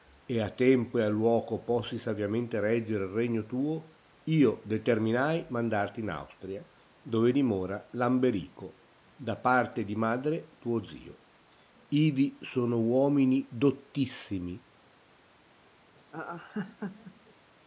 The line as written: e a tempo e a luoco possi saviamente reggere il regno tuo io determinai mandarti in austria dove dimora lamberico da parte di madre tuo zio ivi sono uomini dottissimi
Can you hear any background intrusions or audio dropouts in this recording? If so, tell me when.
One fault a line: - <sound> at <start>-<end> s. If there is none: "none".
- laugh at 16.0-17.3 s